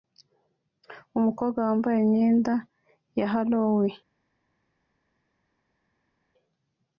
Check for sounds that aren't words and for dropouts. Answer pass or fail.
pass